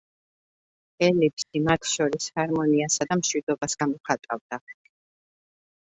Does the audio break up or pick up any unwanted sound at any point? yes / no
yes